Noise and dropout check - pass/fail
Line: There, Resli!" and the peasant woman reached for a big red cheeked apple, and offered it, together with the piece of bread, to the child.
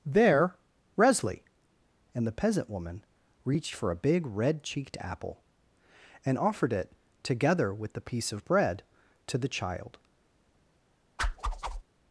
fail